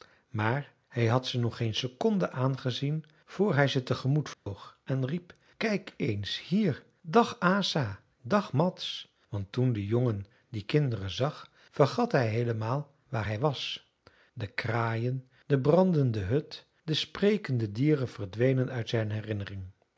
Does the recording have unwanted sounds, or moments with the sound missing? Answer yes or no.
yes